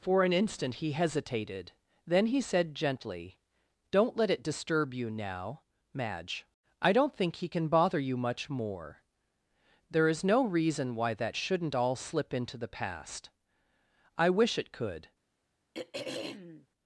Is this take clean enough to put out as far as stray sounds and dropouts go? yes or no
no